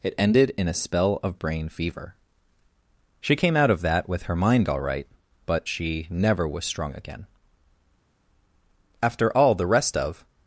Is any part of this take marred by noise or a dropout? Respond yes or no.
no